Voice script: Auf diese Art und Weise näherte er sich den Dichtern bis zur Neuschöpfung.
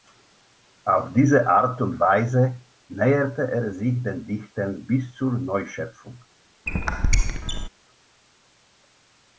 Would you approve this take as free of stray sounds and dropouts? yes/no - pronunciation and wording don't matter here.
no